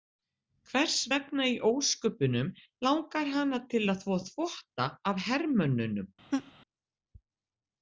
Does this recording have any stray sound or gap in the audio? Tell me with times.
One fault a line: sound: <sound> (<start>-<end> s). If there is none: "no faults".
sound: laugh (6.3-6.5 s)